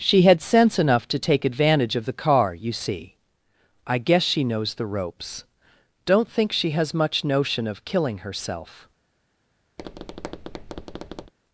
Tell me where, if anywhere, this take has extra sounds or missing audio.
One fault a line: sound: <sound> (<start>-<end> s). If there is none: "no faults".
sound: tap (9.8-11.3 s)